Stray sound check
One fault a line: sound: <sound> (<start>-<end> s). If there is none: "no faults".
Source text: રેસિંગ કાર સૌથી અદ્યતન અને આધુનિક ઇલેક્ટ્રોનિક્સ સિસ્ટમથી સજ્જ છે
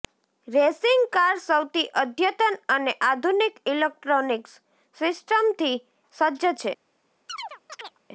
sound: chirp (7.3-8.0 s)